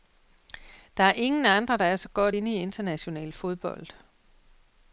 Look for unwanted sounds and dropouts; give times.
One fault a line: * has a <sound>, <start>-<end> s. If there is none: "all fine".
all fine